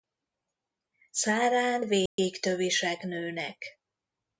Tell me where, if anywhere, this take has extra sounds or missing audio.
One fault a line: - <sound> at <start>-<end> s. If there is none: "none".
- dropout at 2.1-2.2 s